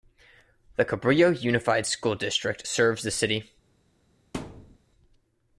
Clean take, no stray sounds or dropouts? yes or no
no